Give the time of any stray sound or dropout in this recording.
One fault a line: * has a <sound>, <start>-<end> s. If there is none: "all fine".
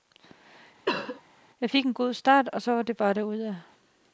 * has a cough, 0.9-1.2 s